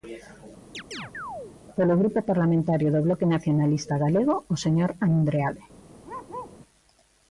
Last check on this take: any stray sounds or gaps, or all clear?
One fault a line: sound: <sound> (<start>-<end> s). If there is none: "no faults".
sound: chirp (0.7-1.6 s)
sound: bark (6.0-6.6 s)